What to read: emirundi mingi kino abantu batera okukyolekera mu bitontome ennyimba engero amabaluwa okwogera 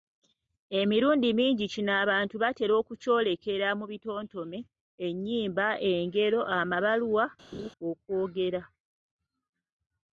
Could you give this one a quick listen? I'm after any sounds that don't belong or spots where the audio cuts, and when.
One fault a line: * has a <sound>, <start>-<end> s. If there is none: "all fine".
* has a laugh, 7.5-7.7 s